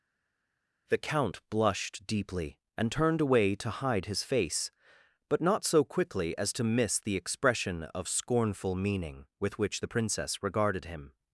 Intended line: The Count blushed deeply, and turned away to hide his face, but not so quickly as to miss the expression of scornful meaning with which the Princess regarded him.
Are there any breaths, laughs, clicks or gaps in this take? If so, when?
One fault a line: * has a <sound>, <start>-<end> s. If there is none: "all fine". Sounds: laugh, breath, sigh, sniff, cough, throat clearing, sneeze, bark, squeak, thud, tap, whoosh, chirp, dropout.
all fine